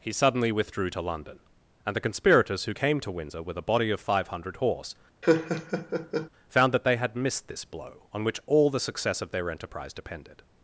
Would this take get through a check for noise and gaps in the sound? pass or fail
fail